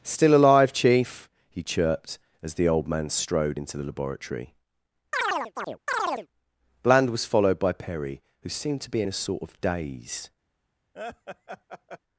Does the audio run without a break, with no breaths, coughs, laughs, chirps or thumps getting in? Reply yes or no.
no